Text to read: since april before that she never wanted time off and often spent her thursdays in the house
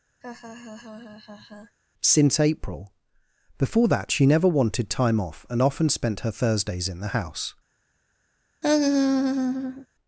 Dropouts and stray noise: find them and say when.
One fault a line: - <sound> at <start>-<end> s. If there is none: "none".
- laugh at 0.2-1.8 s
- laugh at 8.6-9.9 s